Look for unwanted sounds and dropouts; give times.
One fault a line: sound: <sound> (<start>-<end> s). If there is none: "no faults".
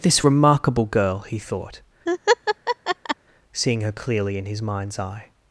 sound: laugh (2.1-3.2 s)